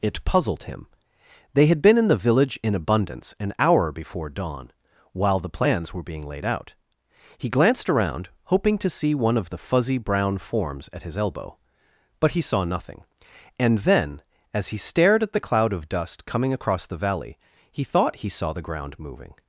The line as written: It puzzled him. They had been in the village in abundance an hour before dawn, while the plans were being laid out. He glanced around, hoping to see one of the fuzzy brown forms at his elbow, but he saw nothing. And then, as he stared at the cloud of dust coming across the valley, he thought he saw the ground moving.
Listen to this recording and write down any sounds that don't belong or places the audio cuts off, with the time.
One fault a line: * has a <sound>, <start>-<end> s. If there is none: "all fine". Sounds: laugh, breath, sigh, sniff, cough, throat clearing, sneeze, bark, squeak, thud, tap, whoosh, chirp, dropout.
all fine